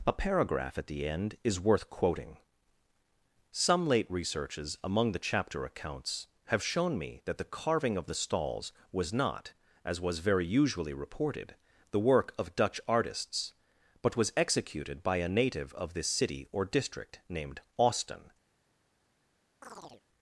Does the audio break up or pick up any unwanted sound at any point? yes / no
yes